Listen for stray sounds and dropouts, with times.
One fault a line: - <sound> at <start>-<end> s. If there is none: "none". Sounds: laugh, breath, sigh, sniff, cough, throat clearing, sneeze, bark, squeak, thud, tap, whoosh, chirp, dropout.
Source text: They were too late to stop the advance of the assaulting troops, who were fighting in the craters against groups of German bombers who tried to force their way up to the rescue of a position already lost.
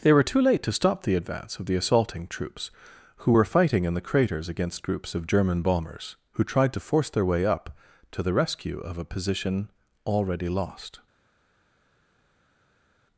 none